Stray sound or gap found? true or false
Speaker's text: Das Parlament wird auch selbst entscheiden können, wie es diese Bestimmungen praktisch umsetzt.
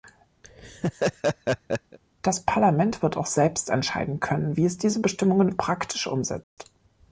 true